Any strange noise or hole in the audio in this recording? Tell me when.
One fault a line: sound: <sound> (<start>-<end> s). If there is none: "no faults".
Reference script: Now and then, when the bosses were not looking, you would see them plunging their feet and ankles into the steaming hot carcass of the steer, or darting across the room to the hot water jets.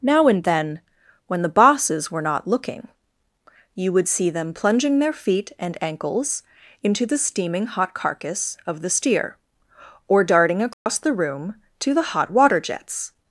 sound: dropout (10.7-10.9 s)